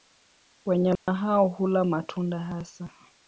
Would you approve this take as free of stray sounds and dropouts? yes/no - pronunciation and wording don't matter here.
no